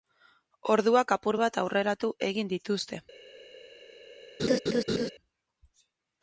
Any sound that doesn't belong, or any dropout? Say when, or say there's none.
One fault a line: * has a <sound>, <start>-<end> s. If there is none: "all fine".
* has a laugh, 4.4-5.1 s